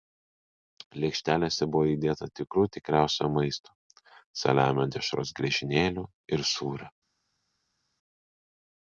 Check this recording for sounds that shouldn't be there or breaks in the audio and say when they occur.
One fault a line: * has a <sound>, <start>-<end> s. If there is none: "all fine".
all fine